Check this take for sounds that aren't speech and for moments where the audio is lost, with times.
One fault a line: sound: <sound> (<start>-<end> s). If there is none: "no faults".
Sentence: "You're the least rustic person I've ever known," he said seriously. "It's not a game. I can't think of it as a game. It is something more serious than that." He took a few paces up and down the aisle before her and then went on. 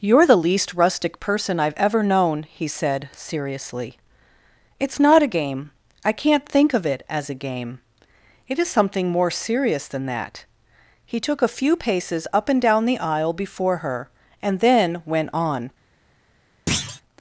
sound: thud (16.7-17.0 s)